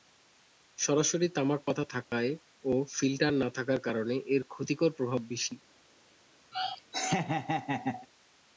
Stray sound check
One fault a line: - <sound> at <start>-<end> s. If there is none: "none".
- dropout at 2.0-2.1 s
- laugh at 6.5-8.1 s